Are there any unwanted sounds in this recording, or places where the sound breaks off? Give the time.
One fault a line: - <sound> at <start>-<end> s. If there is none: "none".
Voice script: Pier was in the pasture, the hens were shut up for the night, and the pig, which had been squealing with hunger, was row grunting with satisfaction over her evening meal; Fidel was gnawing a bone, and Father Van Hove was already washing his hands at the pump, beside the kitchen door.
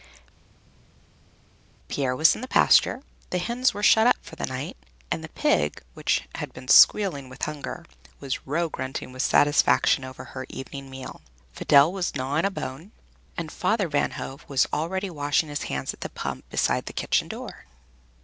none